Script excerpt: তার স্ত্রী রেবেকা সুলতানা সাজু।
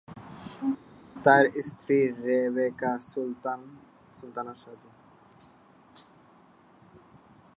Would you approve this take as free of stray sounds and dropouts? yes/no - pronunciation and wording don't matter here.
yes